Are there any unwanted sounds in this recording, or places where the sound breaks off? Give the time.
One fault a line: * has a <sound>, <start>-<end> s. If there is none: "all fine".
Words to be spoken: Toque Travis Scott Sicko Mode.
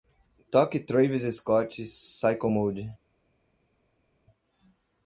all fine